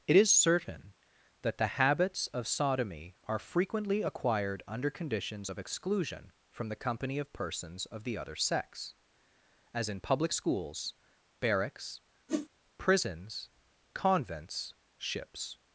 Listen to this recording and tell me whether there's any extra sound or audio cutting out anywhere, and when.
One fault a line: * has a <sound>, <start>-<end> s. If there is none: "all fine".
* has a whoosh, 12.3-12.5 s